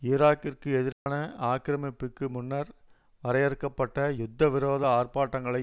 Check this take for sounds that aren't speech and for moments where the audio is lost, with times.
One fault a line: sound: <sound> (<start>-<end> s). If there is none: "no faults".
sound: dropout (0.9-1.1 s)